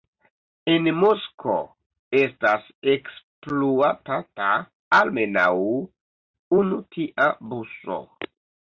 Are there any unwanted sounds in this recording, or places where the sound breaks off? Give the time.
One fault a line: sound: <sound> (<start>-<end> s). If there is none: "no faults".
no faults